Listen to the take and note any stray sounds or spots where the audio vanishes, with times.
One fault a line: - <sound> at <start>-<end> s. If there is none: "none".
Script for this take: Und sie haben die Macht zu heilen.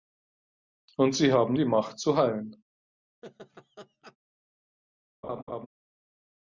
- laugh at 3.2-4.2 s
- laugh at 5.2-5.7 s